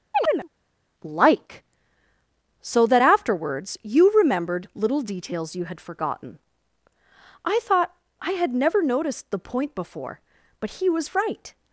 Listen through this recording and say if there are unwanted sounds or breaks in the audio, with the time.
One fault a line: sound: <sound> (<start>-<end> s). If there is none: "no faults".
sound: chirp (0.1-0.5 s)